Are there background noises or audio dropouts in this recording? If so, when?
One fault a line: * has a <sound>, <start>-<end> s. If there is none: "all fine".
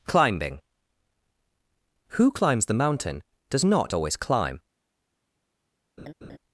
* has a laugh, 6.0-6.4 s